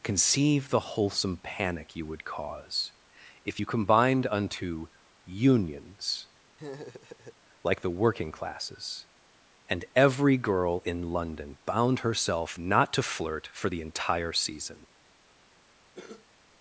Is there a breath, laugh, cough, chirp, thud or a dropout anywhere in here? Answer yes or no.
yes